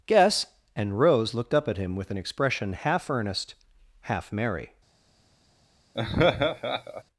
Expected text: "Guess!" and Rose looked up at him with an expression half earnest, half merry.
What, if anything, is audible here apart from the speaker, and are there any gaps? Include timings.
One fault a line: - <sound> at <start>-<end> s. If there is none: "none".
- laugh at 5.9-7.0 s